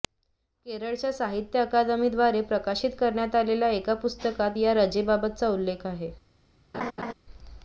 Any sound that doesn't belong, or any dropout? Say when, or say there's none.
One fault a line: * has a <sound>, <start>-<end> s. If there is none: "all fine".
* has a laugh, 6.7-7.1 s